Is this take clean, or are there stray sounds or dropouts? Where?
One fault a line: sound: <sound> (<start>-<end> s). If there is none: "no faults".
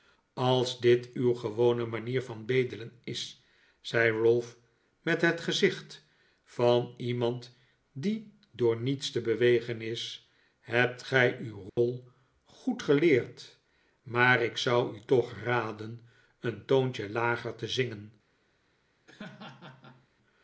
sound: dropout (11.7-11.8 s)
sound: laugh (19.1-20.1 s)